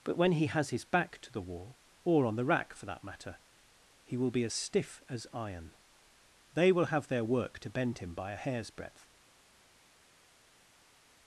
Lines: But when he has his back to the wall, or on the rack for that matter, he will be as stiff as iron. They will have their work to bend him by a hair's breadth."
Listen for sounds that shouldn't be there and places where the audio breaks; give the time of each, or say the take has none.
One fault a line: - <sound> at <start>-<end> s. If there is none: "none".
none